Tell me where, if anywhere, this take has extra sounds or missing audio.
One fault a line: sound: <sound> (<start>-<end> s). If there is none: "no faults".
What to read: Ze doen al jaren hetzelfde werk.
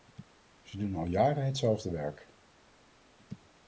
no faults